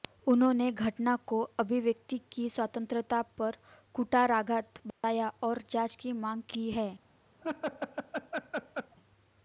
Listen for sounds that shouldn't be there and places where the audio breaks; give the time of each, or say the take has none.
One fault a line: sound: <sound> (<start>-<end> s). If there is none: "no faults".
sound: dropout (4.9-5.0 s)
sound: laugh (7.4-9.0 s)